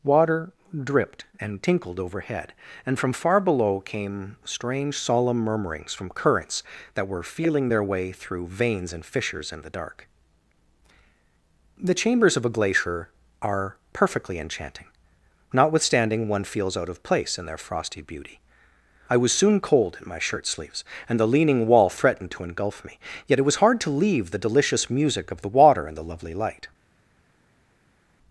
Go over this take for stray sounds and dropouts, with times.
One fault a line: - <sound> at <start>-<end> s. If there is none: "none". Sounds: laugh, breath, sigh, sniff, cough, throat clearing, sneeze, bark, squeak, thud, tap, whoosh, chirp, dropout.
none